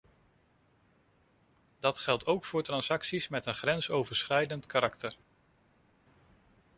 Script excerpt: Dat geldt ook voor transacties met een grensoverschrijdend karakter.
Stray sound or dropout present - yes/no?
no